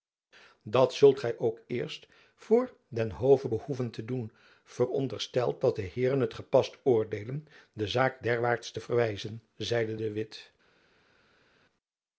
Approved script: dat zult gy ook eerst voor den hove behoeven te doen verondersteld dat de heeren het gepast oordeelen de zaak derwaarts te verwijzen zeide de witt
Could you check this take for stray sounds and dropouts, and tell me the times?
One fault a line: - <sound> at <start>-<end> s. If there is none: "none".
none